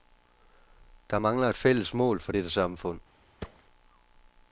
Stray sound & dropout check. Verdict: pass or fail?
fail